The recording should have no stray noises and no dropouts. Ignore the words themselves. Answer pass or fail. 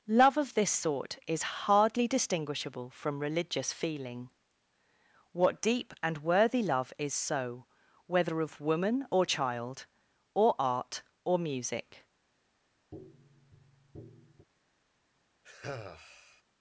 fail